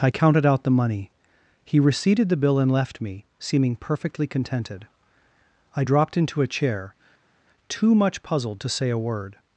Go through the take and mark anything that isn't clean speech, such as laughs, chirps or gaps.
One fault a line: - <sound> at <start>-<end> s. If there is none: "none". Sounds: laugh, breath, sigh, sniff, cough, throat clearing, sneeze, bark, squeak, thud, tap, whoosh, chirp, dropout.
none